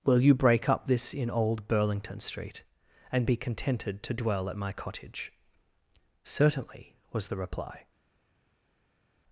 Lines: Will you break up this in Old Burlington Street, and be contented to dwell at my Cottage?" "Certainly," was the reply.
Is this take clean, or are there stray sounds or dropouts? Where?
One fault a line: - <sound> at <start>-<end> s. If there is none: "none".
none